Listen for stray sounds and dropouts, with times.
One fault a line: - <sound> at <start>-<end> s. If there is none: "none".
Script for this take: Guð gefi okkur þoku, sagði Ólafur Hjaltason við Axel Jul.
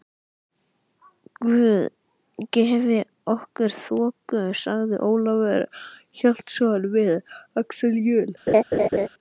- laugh at 8.5-9.1 s